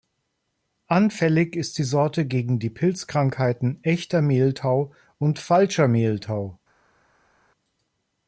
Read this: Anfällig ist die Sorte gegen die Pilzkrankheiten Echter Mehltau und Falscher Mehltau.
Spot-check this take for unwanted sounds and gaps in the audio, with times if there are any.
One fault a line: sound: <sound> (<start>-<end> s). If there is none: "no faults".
no faults